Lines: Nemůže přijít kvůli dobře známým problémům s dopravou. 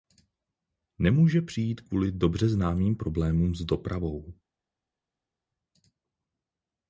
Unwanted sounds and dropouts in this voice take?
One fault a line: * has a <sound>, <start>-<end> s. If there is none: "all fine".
all fine